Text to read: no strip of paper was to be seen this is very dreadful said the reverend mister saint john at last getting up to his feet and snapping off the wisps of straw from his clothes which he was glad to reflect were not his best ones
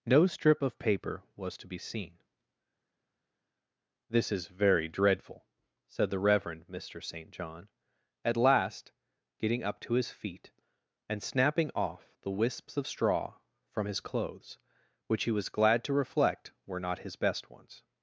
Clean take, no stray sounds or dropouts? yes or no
yes